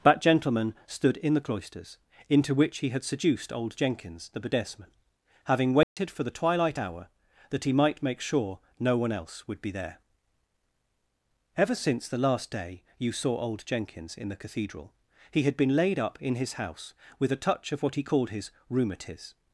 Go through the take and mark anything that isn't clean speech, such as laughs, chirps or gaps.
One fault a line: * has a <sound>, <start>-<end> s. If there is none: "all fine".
* has a dropout, 5.8-6.0 s